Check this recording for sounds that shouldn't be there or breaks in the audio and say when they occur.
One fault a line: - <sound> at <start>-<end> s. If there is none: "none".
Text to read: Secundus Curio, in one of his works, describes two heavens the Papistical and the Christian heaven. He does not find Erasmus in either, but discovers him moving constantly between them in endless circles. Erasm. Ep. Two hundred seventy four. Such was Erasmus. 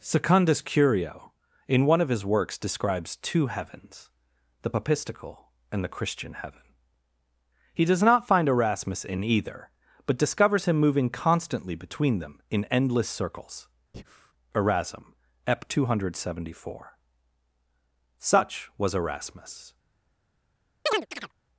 - breath at 13.9-14.3 s
- chirp at 20.9-21.3 s